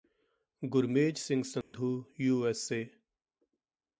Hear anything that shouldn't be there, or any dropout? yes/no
yes